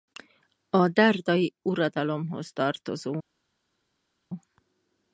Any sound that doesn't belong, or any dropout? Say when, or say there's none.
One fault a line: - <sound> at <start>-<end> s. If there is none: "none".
none